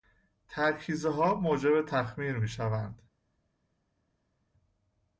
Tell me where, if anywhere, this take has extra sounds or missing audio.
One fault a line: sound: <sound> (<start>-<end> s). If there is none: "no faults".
no faults